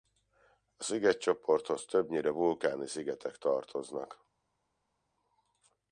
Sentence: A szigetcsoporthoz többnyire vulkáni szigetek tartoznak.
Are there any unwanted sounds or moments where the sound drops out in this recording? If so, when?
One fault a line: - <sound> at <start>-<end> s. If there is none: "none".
none